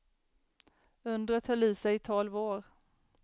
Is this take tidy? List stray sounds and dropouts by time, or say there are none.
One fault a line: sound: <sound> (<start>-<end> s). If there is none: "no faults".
no faults